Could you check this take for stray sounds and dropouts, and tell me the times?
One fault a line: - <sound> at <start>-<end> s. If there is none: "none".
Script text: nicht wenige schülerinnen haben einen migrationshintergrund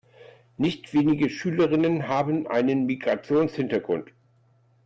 none